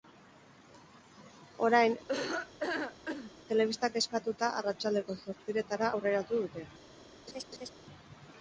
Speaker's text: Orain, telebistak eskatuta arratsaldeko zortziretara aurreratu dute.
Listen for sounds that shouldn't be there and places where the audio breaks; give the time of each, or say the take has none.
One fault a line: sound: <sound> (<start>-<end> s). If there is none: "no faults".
sound: laugh (2.1-3.3 s)
sound: laugh (7.3-7.7 s)